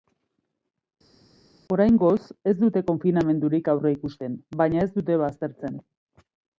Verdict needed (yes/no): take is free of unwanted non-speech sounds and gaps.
yes